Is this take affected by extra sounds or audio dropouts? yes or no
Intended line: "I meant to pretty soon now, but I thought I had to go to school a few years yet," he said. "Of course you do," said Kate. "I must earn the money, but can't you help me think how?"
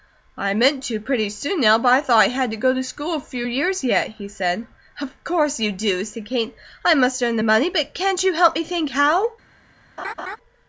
yes